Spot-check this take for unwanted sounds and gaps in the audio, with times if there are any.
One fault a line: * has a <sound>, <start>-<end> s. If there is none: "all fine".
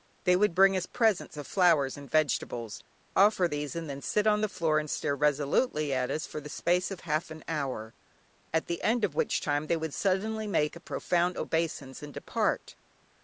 all fine